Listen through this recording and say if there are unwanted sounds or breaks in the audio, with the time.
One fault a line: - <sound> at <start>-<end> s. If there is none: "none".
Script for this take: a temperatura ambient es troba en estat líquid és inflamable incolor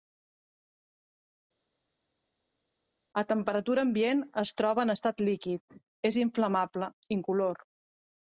none